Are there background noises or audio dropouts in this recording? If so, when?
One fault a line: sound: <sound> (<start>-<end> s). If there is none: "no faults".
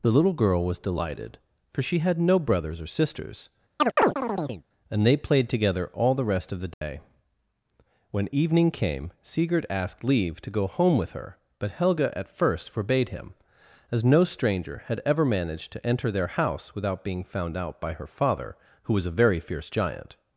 sound: chirp (3.8-4.6 s)
sound: dropout (6.7-6.8 s)